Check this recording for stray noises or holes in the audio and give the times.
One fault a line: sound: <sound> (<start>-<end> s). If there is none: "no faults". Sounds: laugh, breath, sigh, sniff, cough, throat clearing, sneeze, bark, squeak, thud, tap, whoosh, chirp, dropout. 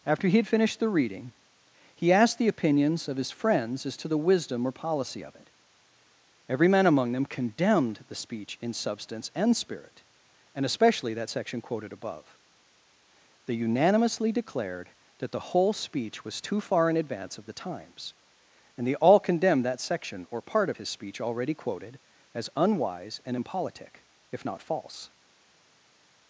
no faults